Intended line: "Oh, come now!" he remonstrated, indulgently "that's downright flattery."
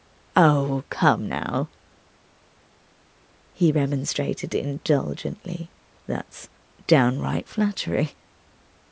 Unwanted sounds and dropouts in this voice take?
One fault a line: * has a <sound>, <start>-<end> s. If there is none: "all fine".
all fine